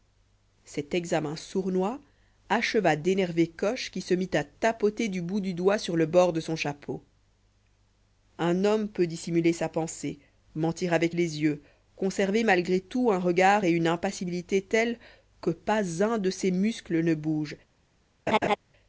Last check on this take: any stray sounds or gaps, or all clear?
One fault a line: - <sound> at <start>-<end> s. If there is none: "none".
- laugh at 18.3-18.6 s